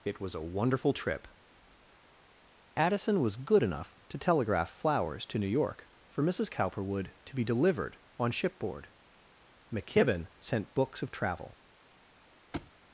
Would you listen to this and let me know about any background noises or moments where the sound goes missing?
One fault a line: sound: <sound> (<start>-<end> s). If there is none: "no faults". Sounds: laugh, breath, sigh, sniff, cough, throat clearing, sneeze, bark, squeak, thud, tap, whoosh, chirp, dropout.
sound: thud (12.5-12.7 s)